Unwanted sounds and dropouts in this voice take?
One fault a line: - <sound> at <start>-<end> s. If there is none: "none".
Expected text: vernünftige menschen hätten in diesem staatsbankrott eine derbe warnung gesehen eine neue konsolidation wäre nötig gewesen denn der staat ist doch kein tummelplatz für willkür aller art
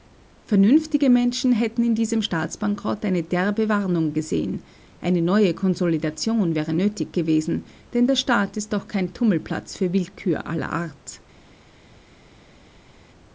none